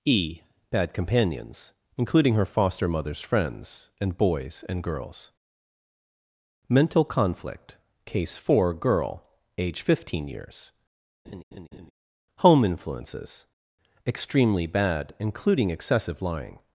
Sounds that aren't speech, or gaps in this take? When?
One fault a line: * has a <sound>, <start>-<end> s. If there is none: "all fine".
* has a laugh, 11.2-11.9 s